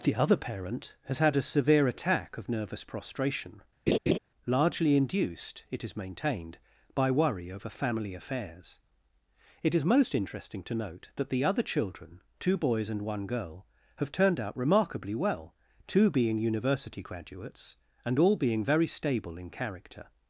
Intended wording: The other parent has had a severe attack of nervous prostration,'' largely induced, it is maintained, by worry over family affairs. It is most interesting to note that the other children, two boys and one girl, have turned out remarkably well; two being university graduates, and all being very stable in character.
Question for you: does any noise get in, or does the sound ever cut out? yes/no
yes